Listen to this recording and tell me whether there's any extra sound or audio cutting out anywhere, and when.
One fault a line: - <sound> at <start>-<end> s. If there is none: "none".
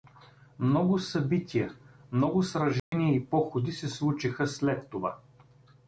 - dropout at 2.8-2.9 s